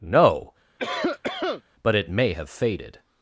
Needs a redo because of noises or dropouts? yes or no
yes